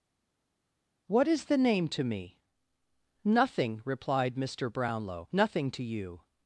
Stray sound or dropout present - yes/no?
no